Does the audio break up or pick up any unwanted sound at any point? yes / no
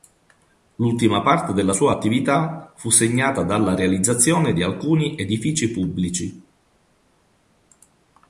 no